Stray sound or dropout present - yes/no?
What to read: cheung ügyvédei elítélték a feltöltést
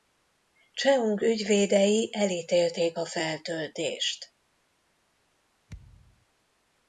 yes